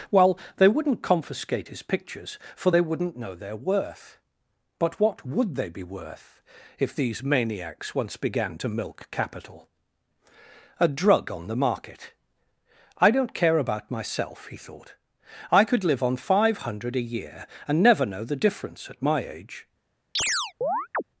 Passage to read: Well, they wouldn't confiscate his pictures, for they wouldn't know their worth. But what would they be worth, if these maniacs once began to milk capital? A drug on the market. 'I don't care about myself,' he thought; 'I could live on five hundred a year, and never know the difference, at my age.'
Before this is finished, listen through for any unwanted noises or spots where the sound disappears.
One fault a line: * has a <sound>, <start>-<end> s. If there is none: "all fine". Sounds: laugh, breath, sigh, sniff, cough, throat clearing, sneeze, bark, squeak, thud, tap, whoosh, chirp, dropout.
* has a chirp, 20.1-21.0 s